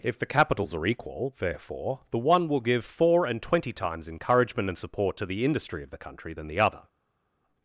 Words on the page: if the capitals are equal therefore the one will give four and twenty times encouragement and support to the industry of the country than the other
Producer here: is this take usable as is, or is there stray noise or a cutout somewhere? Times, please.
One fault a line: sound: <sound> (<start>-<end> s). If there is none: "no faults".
no faults